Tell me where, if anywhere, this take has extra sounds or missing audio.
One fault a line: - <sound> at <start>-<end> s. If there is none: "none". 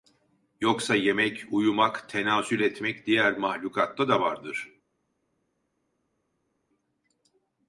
none